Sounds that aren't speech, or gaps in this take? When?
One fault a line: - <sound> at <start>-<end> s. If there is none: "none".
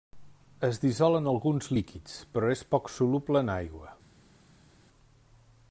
none